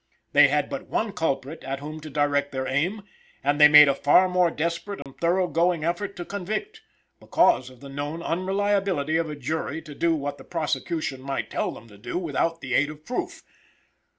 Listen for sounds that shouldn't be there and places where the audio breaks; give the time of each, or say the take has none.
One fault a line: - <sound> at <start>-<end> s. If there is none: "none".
- dropout at 5.0-5.1 s